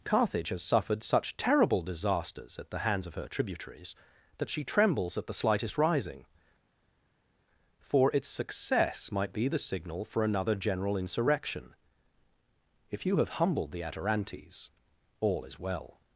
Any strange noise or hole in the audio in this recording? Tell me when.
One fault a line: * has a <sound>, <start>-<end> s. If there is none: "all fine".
all fine